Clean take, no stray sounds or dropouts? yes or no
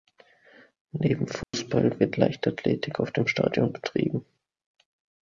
no